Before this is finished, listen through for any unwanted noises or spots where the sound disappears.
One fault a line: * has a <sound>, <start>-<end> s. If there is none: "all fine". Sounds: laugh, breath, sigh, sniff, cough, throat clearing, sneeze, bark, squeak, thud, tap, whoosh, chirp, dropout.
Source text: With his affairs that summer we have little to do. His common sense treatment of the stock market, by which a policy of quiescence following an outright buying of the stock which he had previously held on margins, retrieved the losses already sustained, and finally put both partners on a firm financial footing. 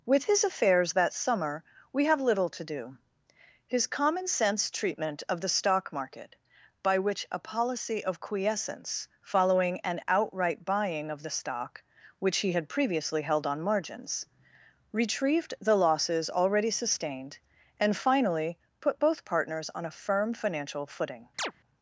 * has a chirp, 21.4-21.5 s